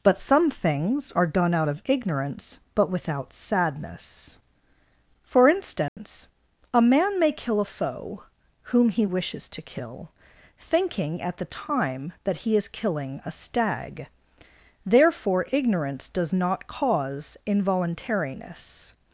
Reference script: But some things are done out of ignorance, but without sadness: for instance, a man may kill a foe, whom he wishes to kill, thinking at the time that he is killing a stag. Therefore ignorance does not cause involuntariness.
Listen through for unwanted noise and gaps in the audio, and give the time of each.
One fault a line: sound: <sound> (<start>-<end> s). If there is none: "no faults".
sound: dropout (5.9-6.0 s)